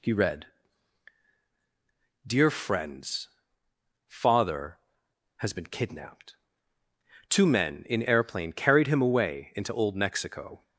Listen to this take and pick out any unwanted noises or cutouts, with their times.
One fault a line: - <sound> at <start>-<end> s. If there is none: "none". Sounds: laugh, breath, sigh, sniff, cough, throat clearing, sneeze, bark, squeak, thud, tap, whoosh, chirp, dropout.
none